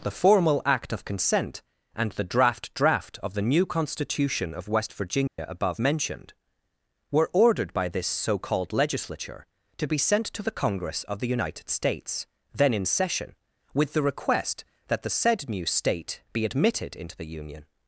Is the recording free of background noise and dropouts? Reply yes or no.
no